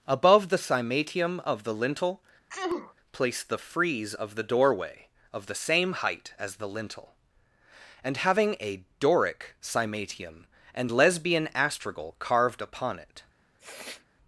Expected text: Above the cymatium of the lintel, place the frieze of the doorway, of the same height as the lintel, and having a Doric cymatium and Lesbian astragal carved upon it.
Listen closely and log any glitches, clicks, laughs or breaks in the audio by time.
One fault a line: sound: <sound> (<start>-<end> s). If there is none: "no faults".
sound: sneeze (2.5-2.9 s)
sound: sniff (13.6-14.1 s)